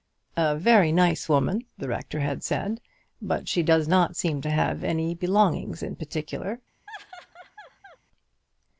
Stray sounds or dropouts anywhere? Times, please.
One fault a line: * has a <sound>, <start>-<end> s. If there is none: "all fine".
* has a laugh, 6.9-8.0 s